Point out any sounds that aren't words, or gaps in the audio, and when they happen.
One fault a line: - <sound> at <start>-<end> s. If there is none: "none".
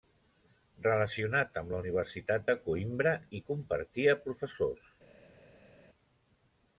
none